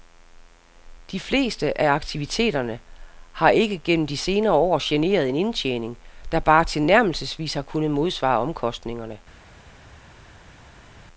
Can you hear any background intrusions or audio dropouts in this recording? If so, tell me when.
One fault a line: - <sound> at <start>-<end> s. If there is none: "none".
none